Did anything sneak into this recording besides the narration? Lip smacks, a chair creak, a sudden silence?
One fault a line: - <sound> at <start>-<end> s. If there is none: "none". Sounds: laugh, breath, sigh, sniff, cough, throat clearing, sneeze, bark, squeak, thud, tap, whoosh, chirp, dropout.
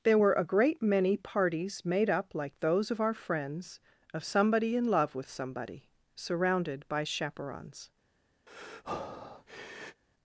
- breath at 8.5-10.0 s